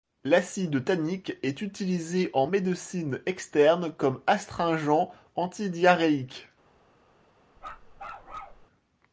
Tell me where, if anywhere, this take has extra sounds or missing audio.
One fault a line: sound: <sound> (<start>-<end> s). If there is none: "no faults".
sound: bark (7.6-8.7 s)